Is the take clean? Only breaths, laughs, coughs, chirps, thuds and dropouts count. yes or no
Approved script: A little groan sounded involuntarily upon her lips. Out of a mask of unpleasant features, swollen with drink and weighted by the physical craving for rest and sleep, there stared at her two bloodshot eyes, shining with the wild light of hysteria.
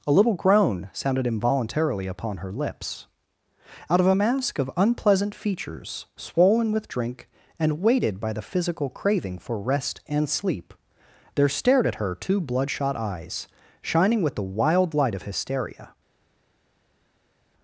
yes